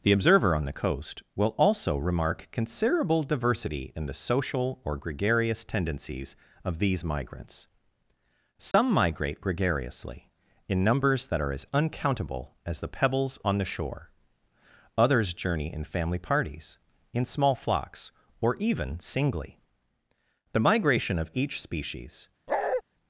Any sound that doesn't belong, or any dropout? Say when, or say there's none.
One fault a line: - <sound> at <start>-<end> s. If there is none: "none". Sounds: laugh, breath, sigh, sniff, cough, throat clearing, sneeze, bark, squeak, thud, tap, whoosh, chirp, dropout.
- dropout at 8.7-8.7 s
- bark at 22.5-22.8 s